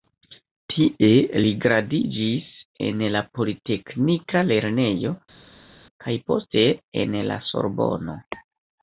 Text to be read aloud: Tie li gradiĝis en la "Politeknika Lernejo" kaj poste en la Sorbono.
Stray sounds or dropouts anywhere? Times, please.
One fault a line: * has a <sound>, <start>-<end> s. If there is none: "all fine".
all fine